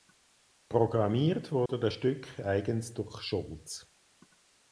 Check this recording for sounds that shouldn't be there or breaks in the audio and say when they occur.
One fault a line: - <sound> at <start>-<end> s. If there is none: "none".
- dropout at 1.7-1.7 s